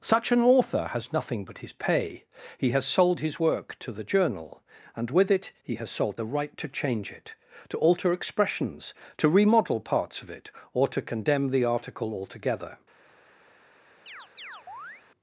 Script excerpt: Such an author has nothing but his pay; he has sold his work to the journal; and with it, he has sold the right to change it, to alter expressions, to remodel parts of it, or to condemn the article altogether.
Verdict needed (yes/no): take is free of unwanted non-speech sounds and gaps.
no